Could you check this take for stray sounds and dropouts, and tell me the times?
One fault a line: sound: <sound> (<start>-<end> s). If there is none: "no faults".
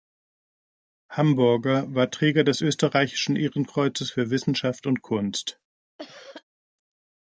sound: cough (6.0-6.4 s)